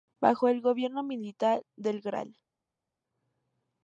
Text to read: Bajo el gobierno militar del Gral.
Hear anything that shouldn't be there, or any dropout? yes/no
no